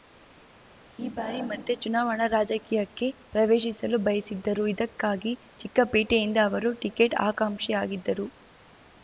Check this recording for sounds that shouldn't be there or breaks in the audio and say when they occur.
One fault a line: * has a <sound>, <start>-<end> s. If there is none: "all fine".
all fine